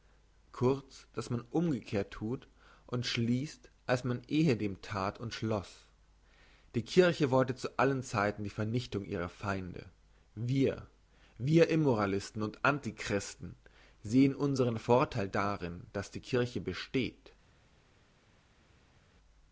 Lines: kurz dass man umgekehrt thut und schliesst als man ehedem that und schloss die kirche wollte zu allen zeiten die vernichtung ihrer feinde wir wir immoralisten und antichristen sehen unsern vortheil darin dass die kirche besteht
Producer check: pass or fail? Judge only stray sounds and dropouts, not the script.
pass